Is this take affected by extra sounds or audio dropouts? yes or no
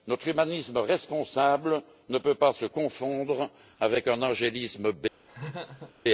yes